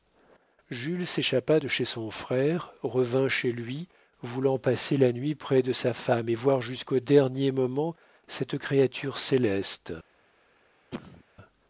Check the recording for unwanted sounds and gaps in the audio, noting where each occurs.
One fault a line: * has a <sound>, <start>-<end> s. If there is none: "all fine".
* has a cough, 10.9-11.2 s